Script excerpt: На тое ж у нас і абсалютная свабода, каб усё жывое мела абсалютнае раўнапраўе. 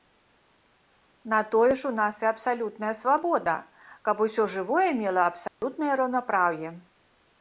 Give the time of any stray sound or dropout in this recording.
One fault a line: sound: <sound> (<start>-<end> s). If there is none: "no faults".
sound: dropout (5.5-5.6 s)